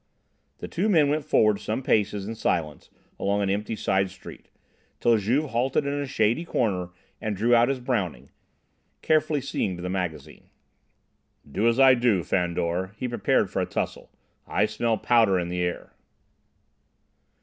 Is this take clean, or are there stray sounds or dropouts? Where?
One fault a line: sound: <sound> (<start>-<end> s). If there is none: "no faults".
no faults